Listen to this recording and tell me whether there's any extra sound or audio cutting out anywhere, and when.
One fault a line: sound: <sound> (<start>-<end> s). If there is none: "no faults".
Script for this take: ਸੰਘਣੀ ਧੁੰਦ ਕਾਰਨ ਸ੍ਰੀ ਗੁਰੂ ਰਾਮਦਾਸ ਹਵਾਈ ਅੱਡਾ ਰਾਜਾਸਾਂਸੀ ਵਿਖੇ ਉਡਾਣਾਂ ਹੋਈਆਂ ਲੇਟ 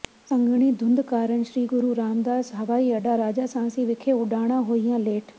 no faults